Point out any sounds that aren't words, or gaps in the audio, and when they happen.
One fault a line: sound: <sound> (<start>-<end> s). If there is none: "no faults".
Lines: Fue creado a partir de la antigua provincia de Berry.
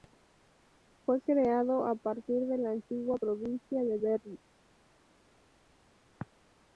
no faults